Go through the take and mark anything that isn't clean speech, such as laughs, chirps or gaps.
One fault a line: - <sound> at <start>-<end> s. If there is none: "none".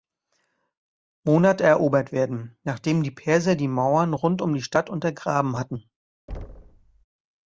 - thud at 6.3-7.0 s